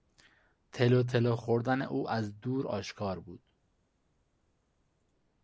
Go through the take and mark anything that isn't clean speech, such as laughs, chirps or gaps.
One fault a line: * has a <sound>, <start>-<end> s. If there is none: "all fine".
all fine